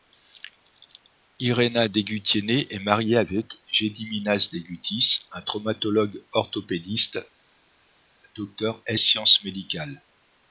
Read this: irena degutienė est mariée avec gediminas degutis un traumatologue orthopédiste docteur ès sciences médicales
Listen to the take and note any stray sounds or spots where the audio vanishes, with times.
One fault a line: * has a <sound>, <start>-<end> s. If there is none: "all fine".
all fine